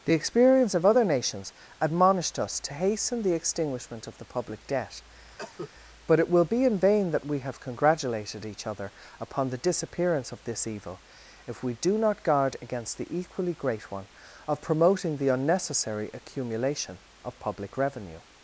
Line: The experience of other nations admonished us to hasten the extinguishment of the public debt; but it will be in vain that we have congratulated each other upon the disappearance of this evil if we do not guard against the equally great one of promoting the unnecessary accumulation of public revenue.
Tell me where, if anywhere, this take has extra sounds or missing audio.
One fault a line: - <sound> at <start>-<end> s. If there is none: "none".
- cough at 5.4-5.7 s